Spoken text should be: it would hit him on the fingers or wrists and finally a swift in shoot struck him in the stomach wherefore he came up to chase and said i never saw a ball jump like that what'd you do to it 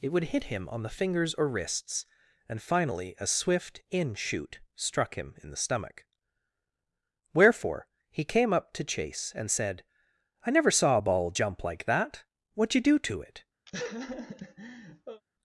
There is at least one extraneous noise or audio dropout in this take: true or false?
true